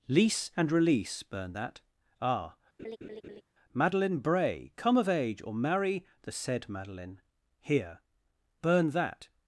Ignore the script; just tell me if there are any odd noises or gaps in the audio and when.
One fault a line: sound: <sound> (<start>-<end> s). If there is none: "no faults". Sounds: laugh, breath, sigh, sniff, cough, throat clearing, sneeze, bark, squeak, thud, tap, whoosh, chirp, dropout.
sound: laugh (2.8-3.4 s)